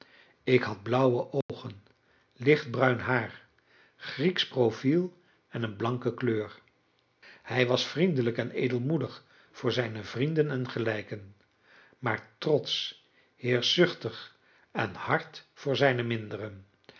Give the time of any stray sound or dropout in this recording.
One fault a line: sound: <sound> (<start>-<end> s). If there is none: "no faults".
sound: dropout (1.4-1.5 s)